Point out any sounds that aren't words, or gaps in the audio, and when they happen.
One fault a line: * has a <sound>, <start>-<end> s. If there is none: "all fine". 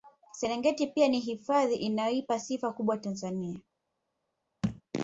* has a thud, 4.6-4.8 s